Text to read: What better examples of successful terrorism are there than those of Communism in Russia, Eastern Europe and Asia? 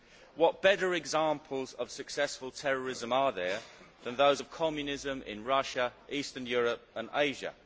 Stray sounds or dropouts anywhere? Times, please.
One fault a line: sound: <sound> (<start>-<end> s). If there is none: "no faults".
no faults